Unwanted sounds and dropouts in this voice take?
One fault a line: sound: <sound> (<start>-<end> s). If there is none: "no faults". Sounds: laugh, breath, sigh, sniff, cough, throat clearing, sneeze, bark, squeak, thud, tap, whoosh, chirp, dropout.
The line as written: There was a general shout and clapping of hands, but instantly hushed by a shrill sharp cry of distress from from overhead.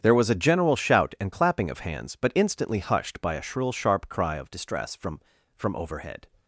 no faults